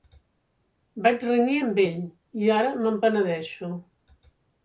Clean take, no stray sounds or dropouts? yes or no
yes